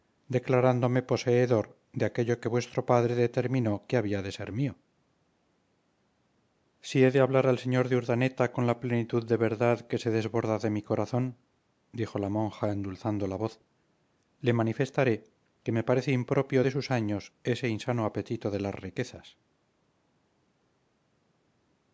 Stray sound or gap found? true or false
false